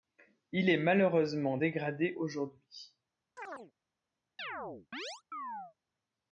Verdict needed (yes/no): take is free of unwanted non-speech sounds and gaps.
no